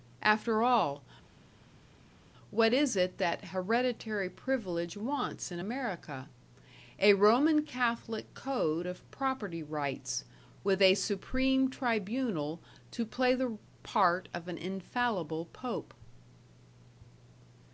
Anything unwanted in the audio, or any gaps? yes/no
no